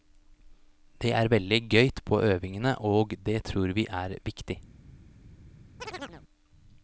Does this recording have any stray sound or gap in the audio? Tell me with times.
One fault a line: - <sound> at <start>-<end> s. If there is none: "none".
- chirp at 5.8-6.2 s